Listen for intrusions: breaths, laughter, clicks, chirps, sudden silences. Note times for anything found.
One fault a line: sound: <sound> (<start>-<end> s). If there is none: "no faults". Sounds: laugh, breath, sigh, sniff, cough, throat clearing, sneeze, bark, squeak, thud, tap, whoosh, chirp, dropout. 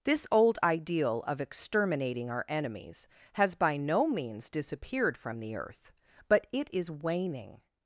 no faults